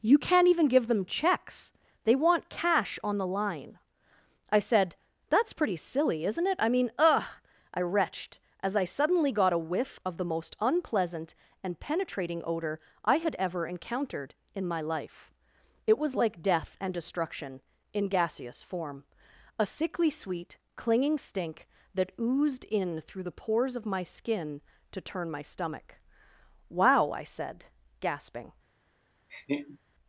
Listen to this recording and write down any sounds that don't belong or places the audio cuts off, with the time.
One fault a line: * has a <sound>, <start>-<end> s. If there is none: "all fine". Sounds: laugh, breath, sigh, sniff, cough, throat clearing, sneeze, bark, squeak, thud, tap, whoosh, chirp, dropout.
* has a laugh, 29.3-29.8 s